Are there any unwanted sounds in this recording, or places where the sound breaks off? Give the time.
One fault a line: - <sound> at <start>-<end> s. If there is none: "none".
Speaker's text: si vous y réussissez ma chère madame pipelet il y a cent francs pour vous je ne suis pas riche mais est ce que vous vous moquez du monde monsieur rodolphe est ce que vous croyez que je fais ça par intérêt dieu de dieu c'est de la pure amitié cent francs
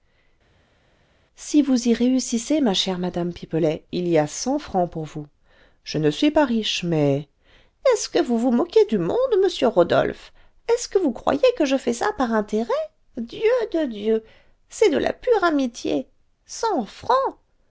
none